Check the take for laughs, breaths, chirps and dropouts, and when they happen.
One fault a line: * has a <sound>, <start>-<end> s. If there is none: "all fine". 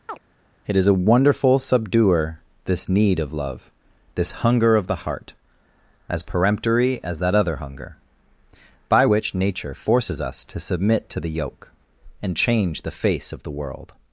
* has a chirp, 0.1-0.2 s